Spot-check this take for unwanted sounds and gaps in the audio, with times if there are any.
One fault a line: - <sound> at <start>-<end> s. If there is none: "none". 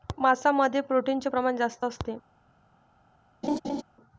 - laugh at 3.4-3.8 s